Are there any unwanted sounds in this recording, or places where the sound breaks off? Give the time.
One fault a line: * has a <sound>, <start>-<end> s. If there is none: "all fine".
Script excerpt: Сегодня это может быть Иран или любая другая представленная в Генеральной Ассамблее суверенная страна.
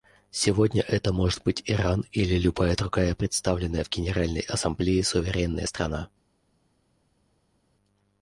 all fine